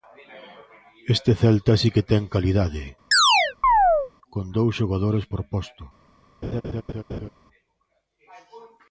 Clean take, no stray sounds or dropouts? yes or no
no